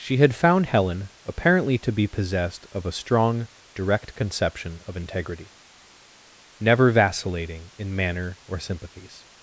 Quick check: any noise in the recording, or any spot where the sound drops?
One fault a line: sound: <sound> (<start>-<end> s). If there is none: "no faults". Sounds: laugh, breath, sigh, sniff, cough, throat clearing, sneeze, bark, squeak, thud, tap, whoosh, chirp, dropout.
no faults